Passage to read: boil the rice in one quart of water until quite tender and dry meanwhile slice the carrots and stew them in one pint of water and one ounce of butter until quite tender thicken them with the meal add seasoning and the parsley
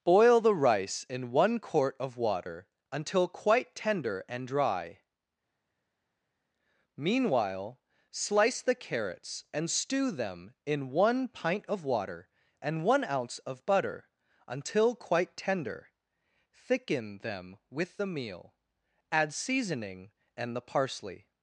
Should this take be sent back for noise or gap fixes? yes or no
no